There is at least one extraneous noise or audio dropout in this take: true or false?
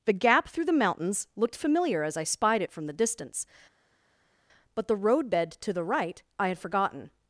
false